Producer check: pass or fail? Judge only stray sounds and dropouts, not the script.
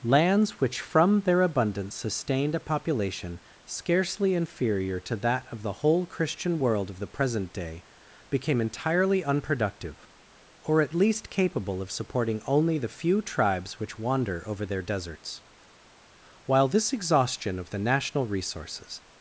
pass